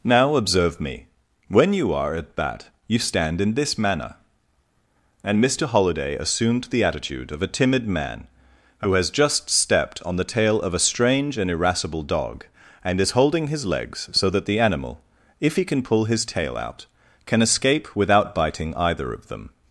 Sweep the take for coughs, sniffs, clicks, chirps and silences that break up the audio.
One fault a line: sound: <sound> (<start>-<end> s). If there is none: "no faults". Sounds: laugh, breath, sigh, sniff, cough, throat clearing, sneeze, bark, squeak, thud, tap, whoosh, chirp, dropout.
no faults